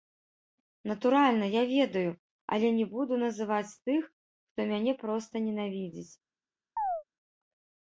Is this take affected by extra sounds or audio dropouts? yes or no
yes